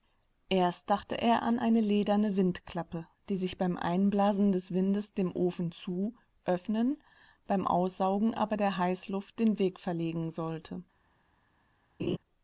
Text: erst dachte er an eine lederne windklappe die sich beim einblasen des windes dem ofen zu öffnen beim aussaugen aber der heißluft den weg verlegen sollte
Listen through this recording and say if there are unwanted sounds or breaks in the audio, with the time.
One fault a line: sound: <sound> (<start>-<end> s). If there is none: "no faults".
sound: laugh (12.0-12.2 s)